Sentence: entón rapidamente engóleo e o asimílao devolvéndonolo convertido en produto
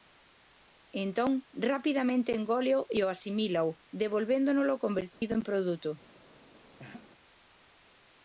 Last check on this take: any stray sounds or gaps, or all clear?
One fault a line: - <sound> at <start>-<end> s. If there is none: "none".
- dropout at 5.1-5.2 s
- laugh at 6.8-7.1 s